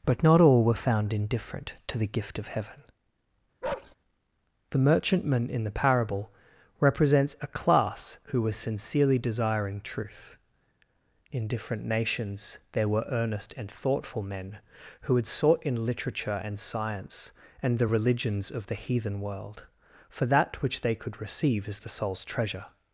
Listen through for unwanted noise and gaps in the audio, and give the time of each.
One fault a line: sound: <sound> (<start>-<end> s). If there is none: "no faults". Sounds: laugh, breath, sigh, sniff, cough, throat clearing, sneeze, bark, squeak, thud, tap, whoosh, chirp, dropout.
sound: bark (3.6-4.0 s)